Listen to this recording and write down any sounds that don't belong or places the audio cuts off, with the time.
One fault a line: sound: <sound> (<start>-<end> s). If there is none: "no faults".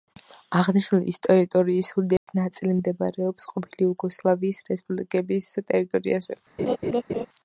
sound: dropout (2.2-2.3 s)
sound: laugh (6.6-7.3 s)